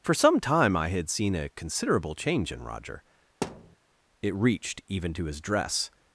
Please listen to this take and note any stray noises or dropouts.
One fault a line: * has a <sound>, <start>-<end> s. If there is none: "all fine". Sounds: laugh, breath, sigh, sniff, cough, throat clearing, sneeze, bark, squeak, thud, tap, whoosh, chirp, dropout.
* has a thud, 3.4-3.8 s